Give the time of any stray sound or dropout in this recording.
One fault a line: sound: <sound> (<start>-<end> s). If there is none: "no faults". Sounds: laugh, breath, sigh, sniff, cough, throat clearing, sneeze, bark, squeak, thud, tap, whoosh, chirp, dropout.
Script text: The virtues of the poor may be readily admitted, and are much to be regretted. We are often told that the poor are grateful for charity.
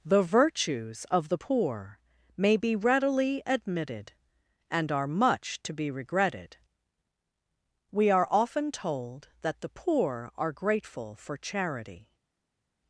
no faults